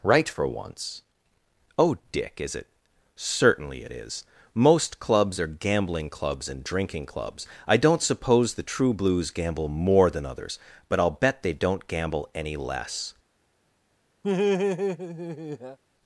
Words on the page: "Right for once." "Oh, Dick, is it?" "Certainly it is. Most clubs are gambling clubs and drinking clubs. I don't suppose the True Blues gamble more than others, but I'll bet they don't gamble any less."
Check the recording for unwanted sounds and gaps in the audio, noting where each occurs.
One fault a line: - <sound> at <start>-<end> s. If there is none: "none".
- laugh at 14.2-15.8 s